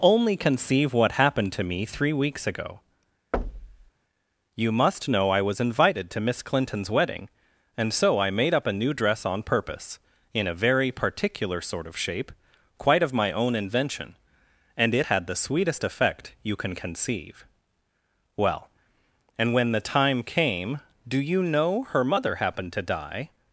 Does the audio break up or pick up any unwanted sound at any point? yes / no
yes